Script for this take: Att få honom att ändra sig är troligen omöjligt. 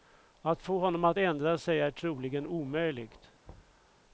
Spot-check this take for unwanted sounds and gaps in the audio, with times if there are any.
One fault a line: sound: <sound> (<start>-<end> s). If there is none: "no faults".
sound: thud (3.5-3.9 s)